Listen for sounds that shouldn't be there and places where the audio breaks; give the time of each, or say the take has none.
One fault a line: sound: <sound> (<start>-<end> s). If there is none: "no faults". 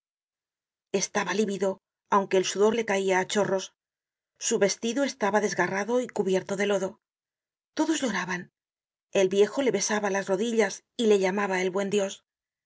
no faults